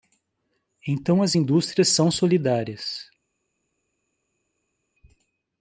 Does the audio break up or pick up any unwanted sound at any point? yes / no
no